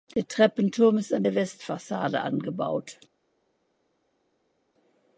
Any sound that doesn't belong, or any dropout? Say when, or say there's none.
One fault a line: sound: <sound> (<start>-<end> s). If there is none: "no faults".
no faults